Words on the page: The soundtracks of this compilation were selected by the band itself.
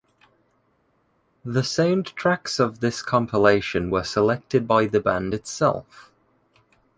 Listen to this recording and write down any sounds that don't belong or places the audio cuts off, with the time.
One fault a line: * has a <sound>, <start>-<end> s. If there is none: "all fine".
all fine